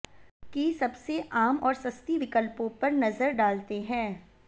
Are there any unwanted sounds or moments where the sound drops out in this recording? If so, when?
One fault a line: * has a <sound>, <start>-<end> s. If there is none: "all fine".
all fine